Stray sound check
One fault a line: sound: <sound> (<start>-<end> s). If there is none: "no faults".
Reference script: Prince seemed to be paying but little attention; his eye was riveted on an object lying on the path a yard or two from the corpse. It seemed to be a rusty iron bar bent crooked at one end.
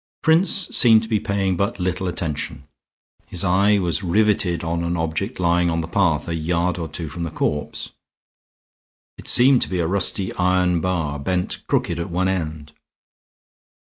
no faults